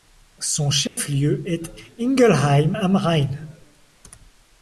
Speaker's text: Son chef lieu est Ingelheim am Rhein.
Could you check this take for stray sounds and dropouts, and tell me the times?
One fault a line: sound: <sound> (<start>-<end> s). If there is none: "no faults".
sound: dropout (0.9-1.0 s)